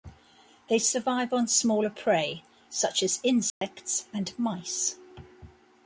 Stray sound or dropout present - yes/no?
yes